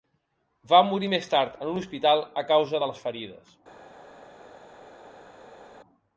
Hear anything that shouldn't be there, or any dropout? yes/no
no